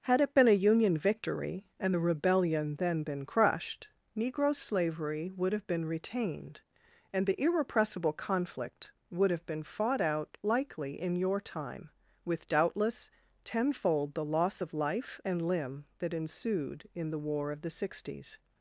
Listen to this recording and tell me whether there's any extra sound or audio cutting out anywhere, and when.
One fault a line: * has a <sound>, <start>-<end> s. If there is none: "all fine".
all fine